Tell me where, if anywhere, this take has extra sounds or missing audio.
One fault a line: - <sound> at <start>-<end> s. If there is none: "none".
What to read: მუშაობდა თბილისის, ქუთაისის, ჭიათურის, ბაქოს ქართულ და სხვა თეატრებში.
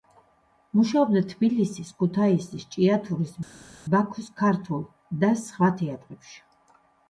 none